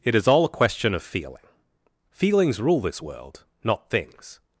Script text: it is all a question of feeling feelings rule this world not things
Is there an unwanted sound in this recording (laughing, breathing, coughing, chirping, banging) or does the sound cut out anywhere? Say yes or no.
no